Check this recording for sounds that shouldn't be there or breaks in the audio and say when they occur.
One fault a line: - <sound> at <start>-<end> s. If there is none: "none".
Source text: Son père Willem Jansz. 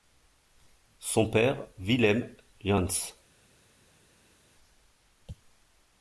none